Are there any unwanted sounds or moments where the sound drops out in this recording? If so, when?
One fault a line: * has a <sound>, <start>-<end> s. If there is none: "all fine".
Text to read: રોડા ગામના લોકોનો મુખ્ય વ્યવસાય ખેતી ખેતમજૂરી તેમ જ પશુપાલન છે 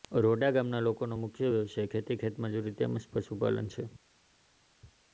all fine